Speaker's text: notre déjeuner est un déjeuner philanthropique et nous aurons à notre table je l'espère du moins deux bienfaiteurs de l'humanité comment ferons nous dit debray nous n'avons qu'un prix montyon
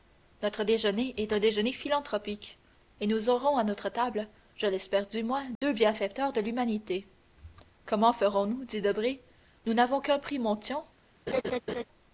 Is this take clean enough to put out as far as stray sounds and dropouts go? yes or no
no